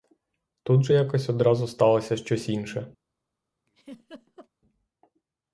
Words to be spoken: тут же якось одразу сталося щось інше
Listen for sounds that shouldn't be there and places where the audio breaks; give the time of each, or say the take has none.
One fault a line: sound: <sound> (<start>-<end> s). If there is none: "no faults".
sound: laugh (3.7-4.5 s)